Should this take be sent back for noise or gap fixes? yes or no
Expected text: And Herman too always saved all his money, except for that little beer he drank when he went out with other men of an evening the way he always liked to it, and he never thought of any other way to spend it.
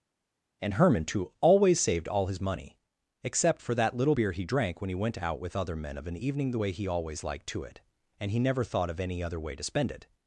no